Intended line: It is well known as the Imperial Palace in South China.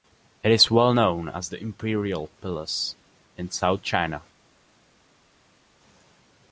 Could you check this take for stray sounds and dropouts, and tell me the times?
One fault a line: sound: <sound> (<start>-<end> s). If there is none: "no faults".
no faults